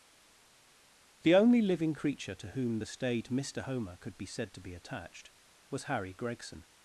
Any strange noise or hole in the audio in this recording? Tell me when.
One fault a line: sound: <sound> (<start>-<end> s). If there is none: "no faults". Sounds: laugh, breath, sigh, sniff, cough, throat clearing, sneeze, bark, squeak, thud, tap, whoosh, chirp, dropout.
no faults